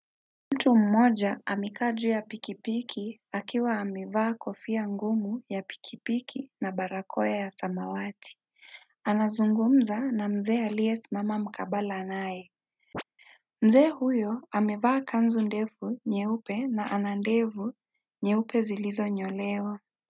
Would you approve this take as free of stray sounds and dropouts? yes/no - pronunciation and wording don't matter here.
no